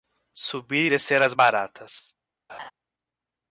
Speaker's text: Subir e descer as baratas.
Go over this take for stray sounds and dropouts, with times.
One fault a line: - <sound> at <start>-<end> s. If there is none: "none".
- laugh at 2.5-2.7 s